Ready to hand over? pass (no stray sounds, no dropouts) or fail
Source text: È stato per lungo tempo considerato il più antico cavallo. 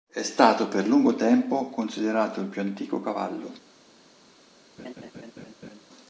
fail